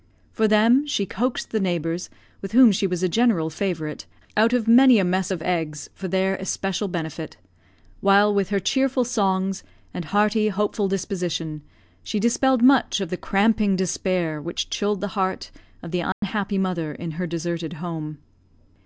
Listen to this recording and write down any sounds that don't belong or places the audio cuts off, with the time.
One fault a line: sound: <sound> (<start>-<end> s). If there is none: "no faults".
sound: dropout (16.1-16.2 s)